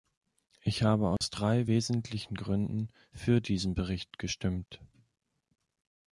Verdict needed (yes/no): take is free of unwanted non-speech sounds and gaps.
no